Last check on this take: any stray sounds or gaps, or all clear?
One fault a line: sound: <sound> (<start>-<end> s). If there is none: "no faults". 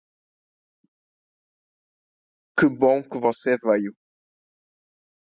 no faults